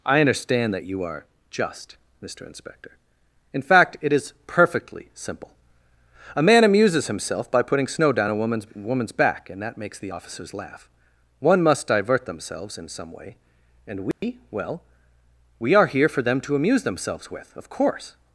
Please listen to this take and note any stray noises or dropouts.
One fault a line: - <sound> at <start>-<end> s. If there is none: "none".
- dropout at 14.1-14.2 s